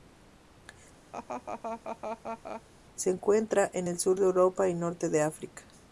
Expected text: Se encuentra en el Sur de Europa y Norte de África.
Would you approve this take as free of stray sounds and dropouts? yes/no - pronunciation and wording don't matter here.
no